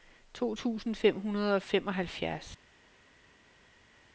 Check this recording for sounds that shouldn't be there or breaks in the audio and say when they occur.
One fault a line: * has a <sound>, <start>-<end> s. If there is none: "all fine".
all fine